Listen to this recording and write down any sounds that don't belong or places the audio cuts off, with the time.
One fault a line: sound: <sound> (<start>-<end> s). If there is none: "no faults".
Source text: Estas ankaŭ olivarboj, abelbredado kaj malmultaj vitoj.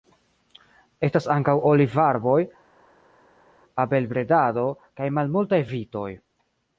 no faults